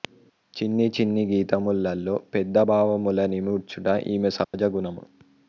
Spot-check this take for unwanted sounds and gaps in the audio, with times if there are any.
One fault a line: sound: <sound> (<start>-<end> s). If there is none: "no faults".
sound: dropout (4.4-4.5 s)